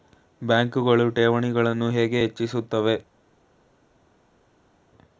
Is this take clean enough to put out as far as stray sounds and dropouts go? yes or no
yes